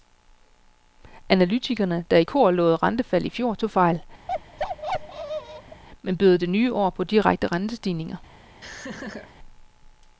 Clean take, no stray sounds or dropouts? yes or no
no